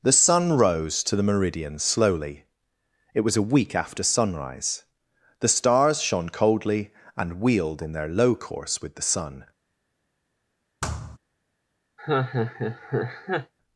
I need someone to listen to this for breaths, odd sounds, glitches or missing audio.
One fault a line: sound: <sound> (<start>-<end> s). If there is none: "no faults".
sound: thud (10.8-11.2 s)
sound: laugh (12.0-13.5 s)